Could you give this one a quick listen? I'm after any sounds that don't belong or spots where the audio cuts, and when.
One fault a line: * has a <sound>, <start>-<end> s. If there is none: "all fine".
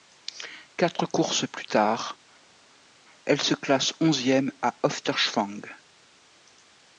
all fine